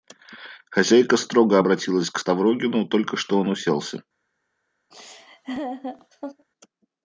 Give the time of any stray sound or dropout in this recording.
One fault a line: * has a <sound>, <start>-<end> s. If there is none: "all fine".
* has a laugh, 4.9-6.5 s